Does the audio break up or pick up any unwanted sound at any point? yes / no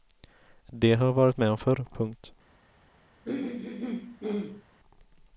yes